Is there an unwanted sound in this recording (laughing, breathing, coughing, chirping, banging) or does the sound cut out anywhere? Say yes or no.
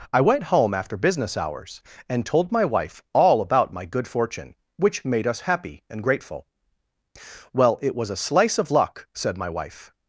no